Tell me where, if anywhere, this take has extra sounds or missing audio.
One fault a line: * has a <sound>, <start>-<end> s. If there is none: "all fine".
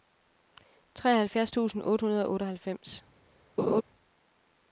* has a laugh, 3.6-3.8 s